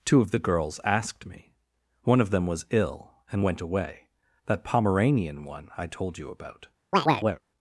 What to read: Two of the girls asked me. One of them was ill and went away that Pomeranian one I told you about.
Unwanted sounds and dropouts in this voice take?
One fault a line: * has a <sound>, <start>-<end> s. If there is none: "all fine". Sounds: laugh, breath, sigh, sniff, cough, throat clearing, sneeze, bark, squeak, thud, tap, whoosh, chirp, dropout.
* has a chirp, 6.9-7.4 s